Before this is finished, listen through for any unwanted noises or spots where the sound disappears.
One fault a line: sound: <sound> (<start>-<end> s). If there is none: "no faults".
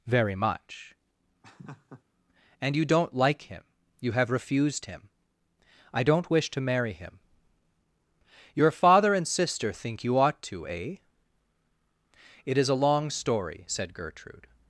sound: laugh (1.4-2.0 s)